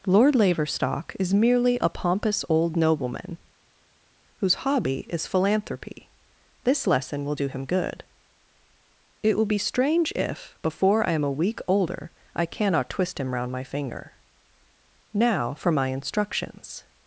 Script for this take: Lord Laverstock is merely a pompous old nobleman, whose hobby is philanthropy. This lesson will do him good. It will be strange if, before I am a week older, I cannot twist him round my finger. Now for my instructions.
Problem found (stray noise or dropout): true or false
false